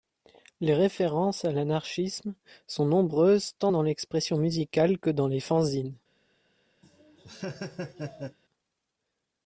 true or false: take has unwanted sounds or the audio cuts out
true